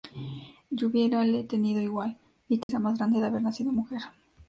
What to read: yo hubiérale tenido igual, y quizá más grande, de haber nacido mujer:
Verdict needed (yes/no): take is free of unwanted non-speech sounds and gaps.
no